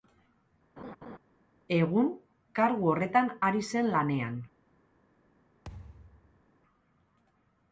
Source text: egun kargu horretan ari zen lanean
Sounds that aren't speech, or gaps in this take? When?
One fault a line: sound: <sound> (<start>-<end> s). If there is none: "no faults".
sound: laugh (0.8-1.2 s)
sound: thud (5.6-6.4 s)